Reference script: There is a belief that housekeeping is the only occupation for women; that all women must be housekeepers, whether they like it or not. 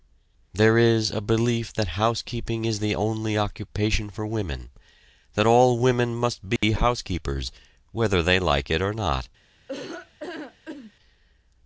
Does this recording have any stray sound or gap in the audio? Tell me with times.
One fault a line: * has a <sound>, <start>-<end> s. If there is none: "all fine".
* has a dropout, 6.6-6.6 s
* has a laugh, 9.7-10.9 s